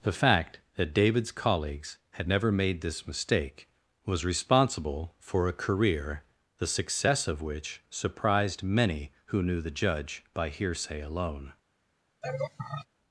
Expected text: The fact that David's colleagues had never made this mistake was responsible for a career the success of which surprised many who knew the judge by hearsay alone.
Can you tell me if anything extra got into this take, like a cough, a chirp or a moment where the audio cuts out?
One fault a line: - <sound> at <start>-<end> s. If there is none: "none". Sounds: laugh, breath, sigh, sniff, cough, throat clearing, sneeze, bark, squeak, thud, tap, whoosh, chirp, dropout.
- laugh at 12.2-12.9 s